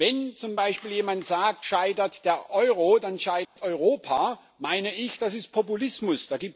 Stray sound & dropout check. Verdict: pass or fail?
fail